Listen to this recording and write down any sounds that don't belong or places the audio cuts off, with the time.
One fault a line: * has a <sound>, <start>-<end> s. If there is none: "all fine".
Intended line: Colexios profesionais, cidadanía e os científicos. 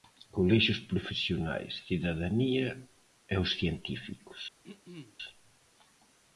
* has a throat clearing, 4.6-5.2 s